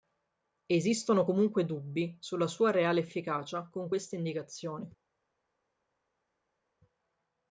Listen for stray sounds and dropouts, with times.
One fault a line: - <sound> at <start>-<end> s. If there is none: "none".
none